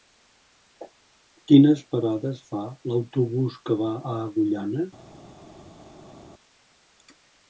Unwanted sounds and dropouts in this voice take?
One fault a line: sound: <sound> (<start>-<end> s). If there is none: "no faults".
no faults